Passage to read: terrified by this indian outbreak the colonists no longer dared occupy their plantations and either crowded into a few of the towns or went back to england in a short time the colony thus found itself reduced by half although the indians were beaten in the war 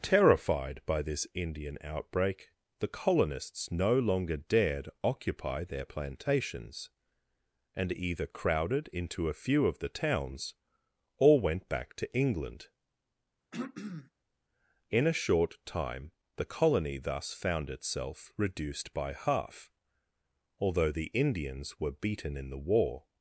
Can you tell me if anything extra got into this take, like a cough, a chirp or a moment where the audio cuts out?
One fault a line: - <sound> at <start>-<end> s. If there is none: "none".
- throat clearing at 13.5-14.1 s